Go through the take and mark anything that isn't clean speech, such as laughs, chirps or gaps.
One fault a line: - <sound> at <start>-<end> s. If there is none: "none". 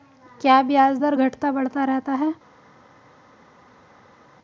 none